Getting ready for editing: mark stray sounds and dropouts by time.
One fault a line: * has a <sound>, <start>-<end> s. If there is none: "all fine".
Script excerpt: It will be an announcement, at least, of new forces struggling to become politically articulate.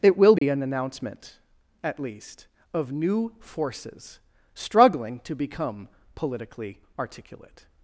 * has a dropout, 0.4-0.4 s